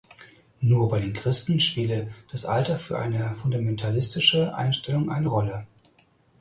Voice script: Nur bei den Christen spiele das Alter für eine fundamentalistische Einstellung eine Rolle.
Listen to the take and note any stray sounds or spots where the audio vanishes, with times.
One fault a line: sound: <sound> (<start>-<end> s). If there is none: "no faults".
no faults